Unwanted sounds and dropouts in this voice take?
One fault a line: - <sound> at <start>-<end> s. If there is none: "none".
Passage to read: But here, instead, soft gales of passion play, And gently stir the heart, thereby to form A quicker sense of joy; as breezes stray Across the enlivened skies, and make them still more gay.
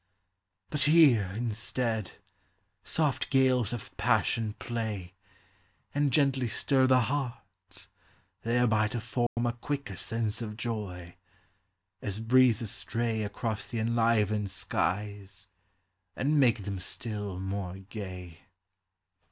- dropout at 9.3-9.4 s